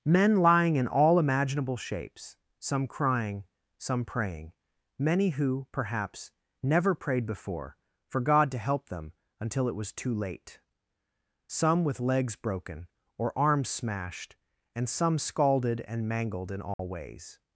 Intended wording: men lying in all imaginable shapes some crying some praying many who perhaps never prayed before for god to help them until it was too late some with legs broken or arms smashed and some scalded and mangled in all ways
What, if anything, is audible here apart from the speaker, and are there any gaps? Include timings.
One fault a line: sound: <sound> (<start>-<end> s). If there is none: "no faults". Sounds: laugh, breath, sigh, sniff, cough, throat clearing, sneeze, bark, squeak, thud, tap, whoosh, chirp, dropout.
sound: dropout (16.7-16.8 s)